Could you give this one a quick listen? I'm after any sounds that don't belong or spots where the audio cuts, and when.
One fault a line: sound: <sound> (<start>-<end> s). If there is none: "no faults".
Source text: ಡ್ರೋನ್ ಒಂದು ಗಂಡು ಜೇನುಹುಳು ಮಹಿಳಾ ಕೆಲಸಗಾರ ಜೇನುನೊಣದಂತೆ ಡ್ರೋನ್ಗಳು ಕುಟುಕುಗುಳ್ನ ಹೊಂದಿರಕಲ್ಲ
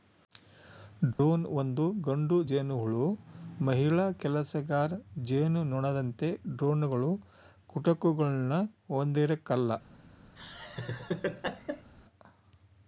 sound: dropout (1.1-1.2 s)
sound: laugh (10.4-11.9 s)